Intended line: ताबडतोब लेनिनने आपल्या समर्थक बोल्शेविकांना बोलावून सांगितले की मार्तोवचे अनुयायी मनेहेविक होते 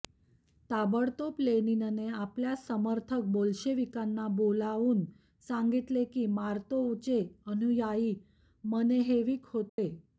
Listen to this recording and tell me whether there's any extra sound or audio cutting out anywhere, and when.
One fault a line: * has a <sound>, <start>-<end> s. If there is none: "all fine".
* has a dropout, 9.7-9.8 s